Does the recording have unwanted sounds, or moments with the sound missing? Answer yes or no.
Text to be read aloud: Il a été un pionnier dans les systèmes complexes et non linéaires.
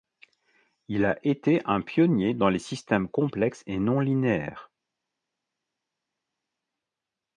no